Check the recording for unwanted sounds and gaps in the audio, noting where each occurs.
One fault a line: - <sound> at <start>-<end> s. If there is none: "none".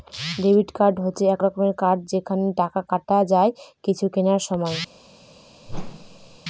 - whoosh at 5.7-6.4 s